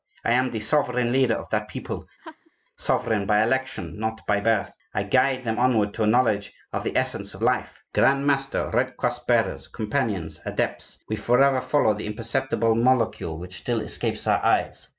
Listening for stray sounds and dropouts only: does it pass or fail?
fail